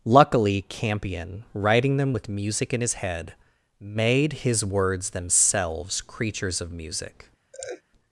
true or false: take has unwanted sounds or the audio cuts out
true